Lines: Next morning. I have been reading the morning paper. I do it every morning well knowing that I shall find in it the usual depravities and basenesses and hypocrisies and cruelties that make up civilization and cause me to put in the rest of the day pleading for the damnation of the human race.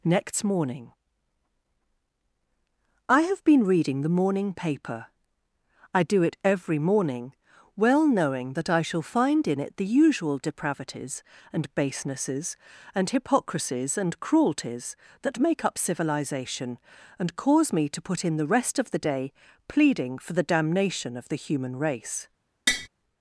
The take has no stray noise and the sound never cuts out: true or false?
false